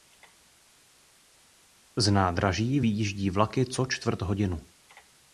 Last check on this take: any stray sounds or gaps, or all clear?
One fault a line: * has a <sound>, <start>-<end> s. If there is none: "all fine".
all fine